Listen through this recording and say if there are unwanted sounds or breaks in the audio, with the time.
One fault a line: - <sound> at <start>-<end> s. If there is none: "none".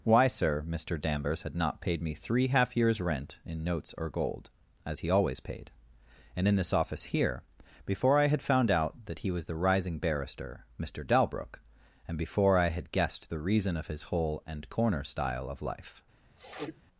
- sniff at 16.4-16.8 s